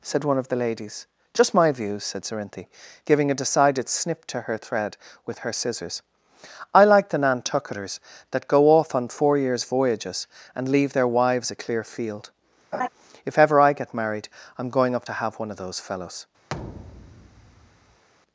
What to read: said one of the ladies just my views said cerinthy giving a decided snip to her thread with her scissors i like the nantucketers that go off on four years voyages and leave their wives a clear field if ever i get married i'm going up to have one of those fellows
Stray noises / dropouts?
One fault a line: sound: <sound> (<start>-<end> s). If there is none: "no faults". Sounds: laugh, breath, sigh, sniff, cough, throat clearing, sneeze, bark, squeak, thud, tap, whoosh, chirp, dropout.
sound: laugh (12.7-12.9 s)
sound: thud (16.5-18.0 s)